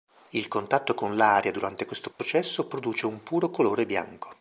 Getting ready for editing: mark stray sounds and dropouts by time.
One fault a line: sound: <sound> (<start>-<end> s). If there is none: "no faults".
sound: dropout (2.1-2.2 s)